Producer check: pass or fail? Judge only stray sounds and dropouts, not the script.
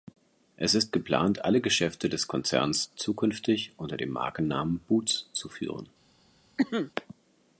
fail